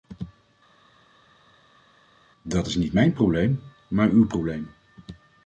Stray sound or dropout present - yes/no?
no